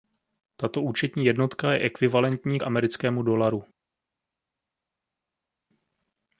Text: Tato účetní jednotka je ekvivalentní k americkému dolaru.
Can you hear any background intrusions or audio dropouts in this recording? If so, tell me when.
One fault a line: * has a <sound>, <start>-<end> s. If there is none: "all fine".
all fine